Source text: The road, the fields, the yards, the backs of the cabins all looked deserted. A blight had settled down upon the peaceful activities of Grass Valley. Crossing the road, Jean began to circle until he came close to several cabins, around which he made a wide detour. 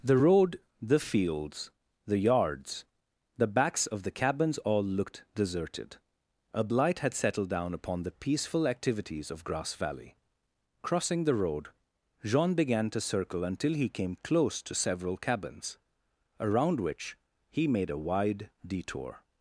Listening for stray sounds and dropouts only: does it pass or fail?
pass